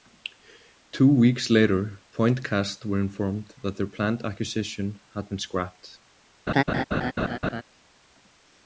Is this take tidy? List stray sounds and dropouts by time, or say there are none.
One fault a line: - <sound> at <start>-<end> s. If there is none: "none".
- laugh at 6.5-7.6 s